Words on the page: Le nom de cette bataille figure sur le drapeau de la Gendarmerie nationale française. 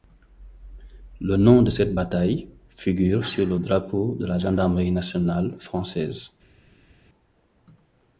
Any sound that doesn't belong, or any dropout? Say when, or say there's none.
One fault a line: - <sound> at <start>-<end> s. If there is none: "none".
none